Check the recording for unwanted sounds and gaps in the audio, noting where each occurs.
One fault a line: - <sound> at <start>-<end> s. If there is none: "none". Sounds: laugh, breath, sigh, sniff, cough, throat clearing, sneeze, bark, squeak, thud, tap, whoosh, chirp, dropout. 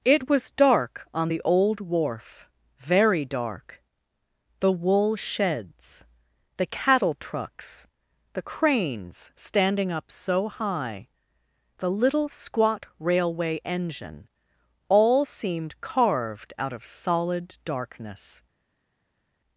none